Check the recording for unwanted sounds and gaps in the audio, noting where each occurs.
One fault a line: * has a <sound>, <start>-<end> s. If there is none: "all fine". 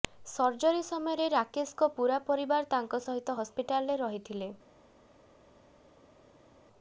all fine